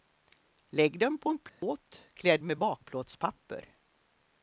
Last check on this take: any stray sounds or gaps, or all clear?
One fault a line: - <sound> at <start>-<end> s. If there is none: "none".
- dropout at 1.5-1.6 s